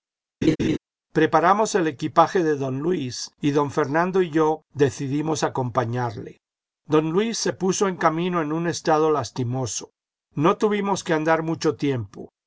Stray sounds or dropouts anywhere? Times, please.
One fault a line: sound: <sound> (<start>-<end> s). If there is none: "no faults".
sound: laugh (0.4-0.8 s)